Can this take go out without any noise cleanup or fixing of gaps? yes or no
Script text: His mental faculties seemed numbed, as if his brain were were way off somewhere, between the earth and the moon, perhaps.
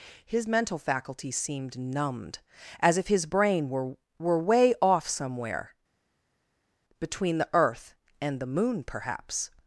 yes